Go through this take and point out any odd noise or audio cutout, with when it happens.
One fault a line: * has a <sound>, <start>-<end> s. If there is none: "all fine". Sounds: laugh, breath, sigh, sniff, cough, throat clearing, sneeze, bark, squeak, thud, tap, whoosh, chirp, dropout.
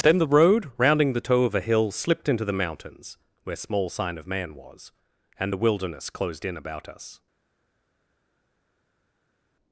all fine